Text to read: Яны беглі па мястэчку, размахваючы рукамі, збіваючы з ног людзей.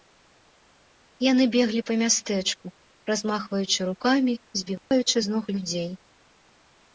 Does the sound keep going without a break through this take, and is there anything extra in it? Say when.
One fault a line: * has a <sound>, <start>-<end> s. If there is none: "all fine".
* has a dropout, 4.8-4.9 s